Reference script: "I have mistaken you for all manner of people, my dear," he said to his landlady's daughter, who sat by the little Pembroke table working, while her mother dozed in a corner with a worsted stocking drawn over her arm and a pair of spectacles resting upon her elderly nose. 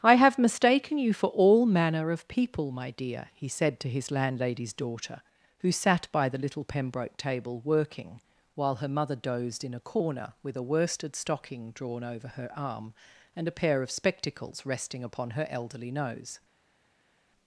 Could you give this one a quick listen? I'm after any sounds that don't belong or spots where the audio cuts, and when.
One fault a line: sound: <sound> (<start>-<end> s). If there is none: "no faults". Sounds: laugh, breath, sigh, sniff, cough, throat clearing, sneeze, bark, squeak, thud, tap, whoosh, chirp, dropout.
no faults